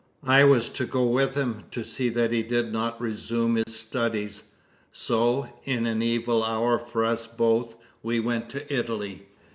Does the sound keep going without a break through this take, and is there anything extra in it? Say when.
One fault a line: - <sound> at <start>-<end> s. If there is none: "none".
- dropout at 3.6-3.7 s